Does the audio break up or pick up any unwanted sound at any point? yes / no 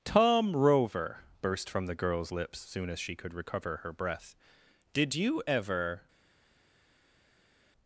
no